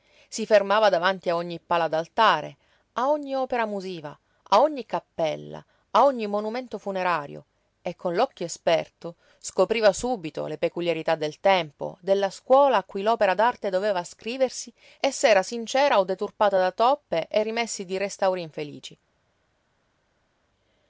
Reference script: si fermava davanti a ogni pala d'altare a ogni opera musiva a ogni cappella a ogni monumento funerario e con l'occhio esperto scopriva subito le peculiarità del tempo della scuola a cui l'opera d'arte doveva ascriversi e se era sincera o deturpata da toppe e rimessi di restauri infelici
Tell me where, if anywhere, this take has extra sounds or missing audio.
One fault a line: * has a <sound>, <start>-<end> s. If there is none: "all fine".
all fine